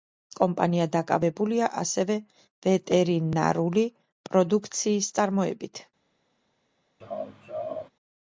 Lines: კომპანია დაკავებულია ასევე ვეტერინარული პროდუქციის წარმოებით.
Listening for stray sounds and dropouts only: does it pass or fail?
fail